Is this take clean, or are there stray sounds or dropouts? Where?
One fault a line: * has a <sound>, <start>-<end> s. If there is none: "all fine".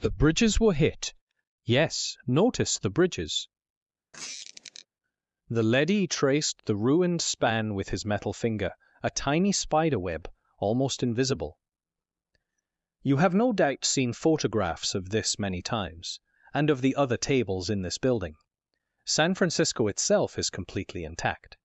* has a squeak, 4.1-4.9 s